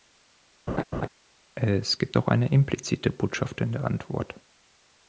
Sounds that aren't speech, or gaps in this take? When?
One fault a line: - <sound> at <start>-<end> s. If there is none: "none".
- laugh at 0.7-1.1 s